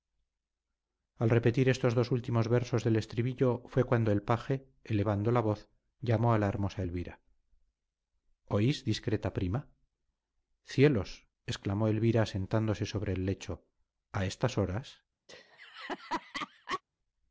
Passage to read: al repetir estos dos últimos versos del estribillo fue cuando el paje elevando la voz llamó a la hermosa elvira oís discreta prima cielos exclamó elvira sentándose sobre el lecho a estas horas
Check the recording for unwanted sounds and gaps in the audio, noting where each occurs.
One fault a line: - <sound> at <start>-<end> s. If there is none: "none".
- laugh at 15.3-16.8 s